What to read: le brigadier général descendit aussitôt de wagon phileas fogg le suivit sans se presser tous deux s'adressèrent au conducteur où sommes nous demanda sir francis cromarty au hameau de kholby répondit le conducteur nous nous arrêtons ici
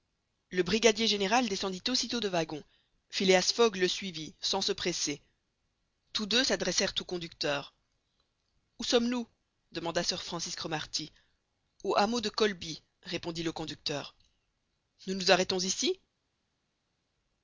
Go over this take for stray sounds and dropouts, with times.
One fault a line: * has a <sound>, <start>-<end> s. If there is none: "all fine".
all fine